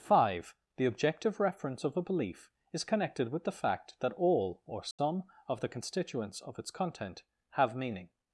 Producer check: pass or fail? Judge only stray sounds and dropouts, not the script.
fail